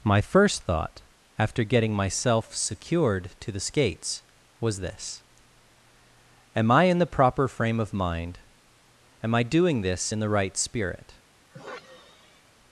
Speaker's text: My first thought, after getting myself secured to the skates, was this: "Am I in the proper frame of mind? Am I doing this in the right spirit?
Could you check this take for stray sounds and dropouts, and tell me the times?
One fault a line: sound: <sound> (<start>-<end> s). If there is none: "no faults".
sound: sigh (11.5-12.5 s)